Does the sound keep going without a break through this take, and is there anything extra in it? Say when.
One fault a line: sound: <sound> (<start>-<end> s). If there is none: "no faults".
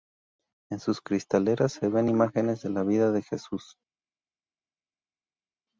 no faults